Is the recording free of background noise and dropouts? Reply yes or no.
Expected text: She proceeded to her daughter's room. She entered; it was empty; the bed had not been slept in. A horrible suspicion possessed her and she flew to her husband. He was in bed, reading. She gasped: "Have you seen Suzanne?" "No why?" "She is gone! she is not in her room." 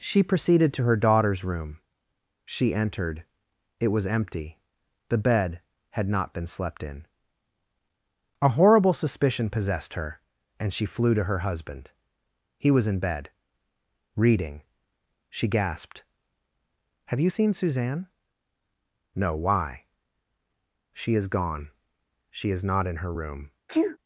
no